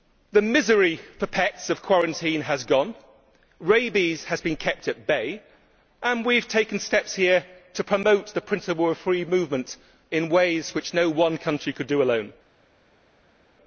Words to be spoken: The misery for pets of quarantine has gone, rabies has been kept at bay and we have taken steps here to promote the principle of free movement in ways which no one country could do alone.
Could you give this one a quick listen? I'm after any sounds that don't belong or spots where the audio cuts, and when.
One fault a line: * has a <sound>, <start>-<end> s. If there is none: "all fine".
all fine